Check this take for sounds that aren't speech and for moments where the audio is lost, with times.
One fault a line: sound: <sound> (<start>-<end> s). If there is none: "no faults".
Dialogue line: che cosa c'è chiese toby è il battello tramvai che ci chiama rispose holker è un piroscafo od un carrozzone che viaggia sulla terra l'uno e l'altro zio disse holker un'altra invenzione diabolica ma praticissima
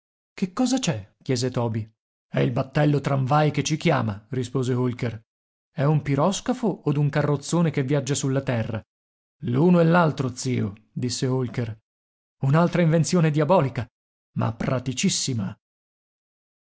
no faults